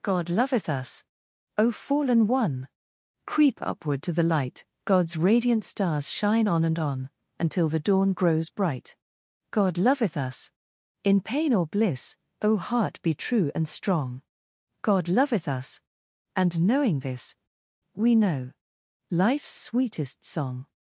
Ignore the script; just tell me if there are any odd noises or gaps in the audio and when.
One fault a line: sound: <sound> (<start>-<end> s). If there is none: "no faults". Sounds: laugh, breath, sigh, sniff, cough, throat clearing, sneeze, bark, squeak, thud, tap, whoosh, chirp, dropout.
no faults